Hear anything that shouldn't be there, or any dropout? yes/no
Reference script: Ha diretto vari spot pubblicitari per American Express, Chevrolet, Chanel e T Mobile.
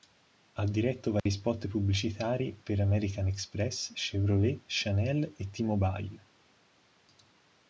yes